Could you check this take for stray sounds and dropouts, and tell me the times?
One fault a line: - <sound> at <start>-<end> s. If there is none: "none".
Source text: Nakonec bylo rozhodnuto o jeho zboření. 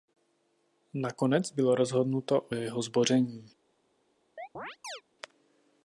- chirp at 4.4-5.0 s